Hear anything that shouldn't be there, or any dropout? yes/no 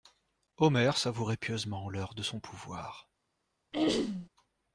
yes